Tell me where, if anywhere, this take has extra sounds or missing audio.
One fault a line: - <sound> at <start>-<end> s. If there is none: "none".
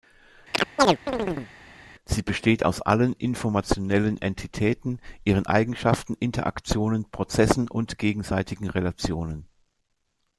- chirp at 0.5-1.5 s